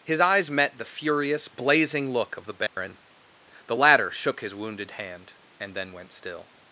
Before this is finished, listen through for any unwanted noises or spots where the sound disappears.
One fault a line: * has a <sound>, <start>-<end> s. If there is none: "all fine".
* has a dropout, 2.7-2.8 s